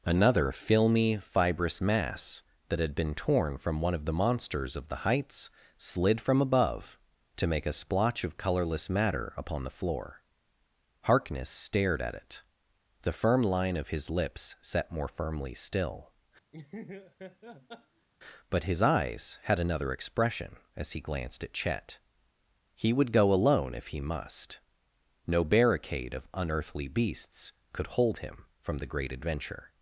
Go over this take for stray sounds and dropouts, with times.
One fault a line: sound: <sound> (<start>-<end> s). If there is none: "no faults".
sound: laugh (16.5-18.1 s)